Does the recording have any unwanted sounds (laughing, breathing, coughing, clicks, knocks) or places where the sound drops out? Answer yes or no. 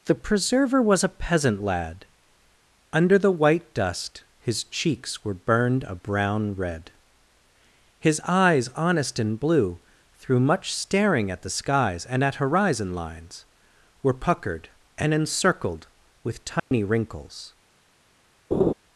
yes